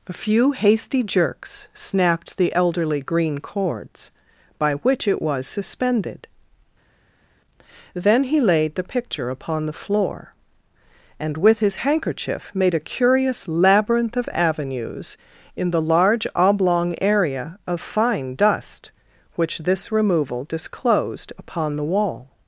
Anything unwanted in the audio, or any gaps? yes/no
no